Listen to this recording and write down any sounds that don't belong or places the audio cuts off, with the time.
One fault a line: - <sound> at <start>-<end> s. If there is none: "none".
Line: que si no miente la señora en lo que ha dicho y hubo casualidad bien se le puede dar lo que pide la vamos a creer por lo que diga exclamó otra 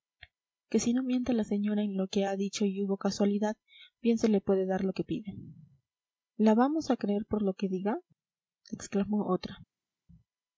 none